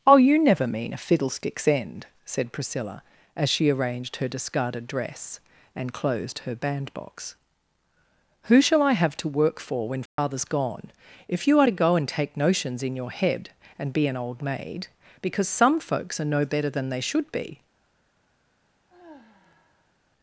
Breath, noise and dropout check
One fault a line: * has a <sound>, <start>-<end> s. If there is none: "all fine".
* has a dropout, 10.1-10.2 s
* has a sigh, 18.9-19.9 s